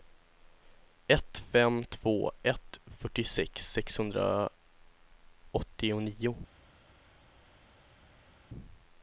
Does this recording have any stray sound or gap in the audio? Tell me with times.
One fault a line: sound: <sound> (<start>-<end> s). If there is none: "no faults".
no faults